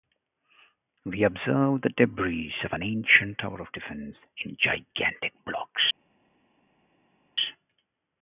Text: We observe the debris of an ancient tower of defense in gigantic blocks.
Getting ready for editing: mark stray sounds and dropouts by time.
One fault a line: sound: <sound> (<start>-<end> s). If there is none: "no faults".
no faults